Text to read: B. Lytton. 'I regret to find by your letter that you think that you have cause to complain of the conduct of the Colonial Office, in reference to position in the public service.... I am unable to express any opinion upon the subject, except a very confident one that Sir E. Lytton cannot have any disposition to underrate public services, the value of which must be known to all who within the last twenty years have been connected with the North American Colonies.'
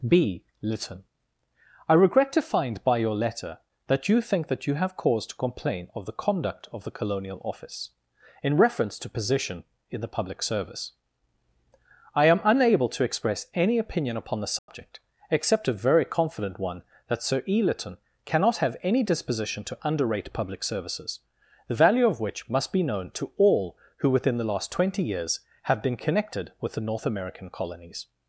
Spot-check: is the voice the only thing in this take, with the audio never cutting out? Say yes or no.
no